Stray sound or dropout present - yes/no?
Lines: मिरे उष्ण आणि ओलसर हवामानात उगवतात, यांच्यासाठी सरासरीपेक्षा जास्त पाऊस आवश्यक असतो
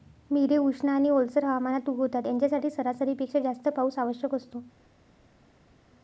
no